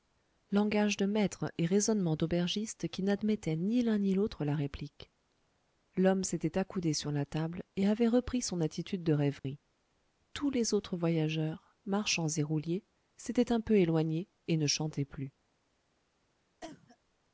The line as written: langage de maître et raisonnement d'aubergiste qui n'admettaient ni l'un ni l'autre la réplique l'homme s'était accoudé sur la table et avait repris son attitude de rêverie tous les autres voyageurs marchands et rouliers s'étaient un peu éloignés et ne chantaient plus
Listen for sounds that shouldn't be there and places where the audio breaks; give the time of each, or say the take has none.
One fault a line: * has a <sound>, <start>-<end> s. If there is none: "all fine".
* has a dropout, 9.4-9.4 s
* has a cough, 16.6-17.0 s